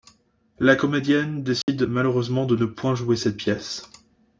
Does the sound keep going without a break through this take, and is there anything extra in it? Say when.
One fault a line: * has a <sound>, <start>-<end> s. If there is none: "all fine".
* has a dropout, 1.6-1.7 s